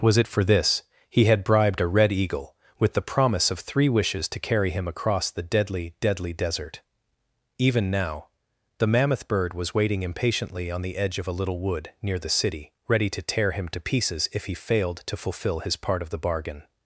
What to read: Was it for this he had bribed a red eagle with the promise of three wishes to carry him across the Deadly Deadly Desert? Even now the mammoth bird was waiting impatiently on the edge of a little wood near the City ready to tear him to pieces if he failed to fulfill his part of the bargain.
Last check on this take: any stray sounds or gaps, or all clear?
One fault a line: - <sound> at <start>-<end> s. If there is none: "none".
none